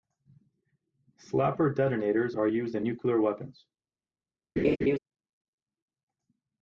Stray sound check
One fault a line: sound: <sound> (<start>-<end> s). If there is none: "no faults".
sound: laugh (4.6-5.0 s)